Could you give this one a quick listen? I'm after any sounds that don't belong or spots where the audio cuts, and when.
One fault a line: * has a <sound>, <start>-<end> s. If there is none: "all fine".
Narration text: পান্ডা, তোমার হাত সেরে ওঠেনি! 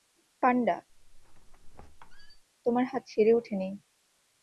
* has a squeak, 0.9-2.4 s